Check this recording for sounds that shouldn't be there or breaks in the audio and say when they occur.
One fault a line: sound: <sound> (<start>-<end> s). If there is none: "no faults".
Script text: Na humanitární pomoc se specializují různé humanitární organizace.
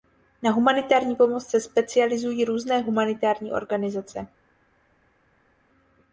no faults